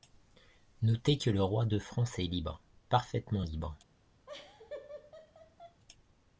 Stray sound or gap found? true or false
true